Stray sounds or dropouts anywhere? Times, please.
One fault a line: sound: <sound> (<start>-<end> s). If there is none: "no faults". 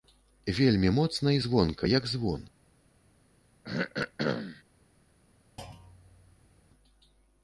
sound: throat clearing (3.6-4.6 s)
sound: thud (5.6-6.7 s)